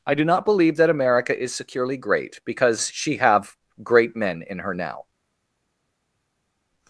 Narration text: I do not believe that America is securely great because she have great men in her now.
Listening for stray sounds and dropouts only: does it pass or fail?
pass